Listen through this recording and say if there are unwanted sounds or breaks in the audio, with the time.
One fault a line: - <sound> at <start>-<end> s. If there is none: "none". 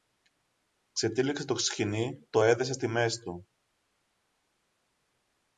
none